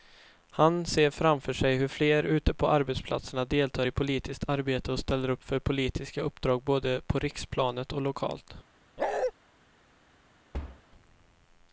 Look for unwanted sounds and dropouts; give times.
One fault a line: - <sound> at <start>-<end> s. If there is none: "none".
- bark at 9.0-9.3 s
- thud at 10.5-10.8 s